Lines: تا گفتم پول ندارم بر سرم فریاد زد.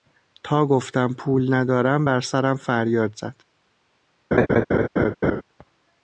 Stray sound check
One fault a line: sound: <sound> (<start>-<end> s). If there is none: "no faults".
sound: laugh (4.3-5.4 s)